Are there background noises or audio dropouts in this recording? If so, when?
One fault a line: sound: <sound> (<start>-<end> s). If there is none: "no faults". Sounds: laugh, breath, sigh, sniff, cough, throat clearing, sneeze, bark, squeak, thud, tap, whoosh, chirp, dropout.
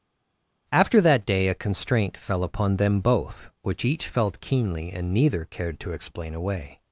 no faults